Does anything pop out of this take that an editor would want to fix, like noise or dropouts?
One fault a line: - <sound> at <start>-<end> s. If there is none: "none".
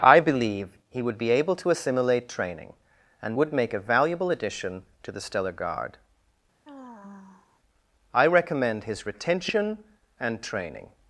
- sigh at 6.6-7.6 s